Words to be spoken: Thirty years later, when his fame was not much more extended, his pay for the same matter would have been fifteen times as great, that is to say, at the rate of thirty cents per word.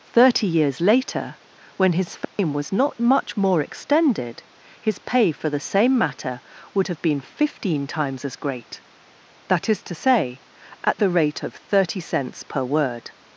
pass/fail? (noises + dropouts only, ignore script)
fail